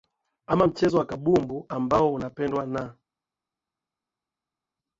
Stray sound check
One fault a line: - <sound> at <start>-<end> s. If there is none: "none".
none